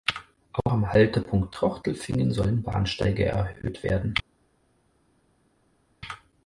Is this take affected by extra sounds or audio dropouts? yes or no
no